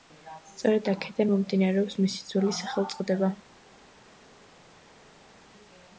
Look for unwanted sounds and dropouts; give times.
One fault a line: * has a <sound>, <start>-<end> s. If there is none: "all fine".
all fine